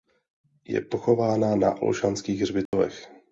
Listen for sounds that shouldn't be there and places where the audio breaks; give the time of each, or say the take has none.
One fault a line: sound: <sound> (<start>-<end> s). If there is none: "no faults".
sound: dropout (2.7-2.7 s)